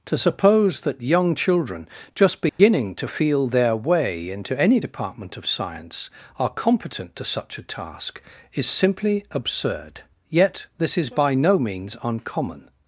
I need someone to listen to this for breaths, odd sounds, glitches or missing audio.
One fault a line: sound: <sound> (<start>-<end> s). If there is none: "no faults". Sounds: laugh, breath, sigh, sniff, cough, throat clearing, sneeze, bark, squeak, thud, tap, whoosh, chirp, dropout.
sound: dropout (2.5-2.6 s)